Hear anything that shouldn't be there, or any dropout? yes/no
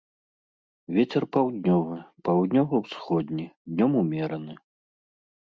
no